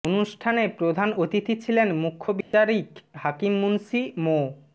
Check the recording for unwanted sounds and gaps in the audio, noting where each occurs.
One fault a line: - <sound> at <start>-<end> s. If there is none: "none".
- dropout at 2.4-2.5 s